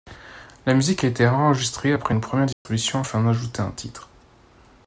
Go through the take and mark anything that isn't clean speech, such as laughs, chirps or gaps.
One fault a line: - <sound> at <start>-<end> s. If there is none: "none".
- dropout at 2.5-2.7 s